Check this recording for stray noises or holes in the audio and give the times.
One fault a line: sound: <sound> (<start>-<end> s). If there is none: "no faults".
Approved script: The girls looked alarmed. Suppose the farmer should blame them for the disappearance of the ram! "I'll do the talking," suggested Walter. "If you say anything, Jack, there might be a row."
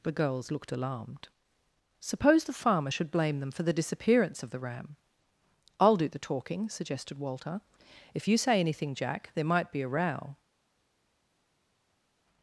no faults